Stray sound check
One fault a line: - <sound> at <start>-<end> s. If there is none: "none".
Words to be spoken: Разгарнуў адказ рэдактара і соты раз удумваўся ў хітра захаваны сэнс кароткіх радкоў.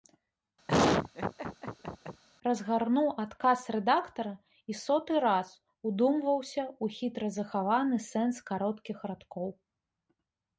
- laugh at 0.7-2.2 s